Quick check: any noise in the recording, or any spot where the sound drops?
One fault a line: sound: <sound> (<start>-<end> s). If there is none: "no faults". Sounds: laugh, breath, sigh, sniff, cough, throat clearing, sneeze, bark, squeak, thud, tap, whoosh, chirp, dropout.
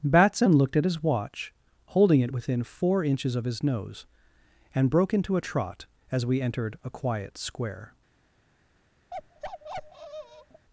sound: bark (9.1-10.7 s)